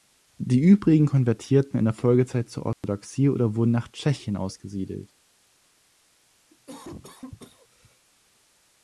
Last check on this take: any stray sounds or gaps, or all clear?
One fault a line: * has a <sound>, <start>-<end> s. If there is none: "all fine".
* has a dropout, 2.7-2.8 s
* has a cough, 6.5-8.1 s